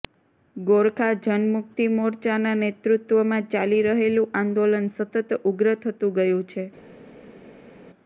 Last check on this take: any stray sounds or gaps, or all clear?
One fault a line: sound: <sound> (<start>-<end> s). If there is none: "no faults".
no faults